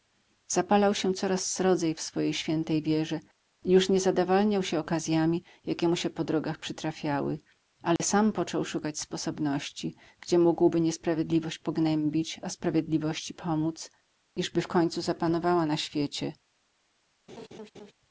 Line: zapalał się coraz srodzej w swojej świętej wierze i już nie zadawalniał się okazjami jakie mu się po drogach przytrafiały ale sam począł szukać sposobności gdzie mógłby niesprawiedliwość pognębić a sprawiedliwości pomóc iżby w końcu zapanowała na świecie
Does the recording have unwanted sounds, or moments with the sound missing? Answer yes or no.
yes